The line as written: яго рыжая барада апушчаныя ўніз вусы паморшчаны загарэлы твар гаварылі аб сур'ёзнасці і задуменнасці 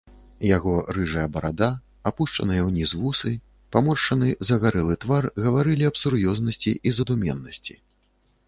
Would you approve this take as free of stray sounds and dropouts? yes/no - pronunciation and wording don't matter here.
yes